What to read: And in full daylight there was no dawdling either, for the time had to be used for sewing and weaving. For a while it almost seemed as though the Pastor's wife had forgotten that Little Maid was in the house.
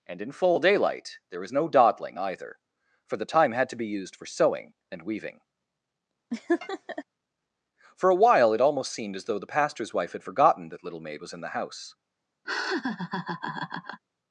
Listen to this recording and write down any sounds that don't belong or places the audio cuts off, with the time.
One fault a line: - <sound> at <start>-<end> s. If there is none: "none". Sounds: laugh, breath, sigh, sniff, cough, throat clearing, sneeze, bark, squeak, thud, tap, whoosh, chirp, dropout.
- laugh at 6.3-7.0 s
- laugh at 12.4-14.0 s